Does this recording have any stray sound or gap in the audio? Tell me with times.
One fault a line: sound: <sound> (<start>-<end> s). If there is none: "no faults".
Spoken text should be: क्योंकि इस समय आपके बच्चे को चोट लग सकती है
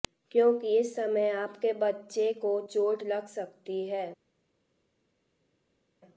no faults